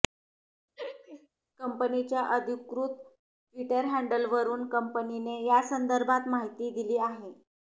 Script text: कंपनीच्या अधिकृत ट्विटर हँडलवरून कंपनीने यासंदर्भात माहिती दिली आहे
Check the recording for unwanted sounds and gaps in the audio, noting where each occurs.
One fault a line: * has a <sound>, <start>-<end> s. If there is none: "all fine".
* has a laugh, 0.8-1.3 s